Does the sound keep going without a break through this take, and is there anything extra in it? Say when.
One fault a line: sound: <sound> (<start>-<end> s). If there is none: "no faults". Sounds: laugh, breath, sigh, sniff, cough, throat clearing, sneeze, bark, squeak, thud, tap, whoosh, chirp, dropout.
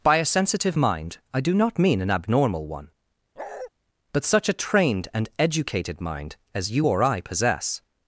sound: bark (3.4-3.7 s)